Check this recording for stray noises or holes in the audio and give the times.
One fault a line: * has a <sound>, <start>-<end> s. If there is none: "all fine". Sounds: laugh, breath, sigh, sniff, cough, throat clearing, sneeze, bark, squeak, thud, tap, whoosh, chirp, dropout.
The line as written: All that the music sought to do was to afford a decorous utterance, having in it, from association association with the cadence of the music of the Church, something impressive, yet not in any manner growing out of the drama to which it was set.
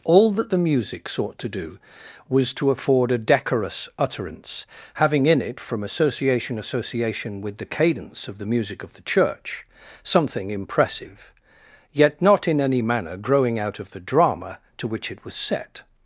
all fine